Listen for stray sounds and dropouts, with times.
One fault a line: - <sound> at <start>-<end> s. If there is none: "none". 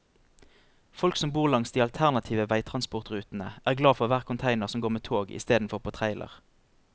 none